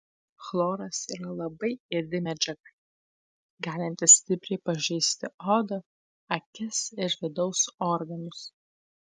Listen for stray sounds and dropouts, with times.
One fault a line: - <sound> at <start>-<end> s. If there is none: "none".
none